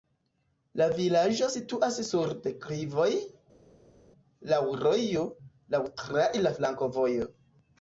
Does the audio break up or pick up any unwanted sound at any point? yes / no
no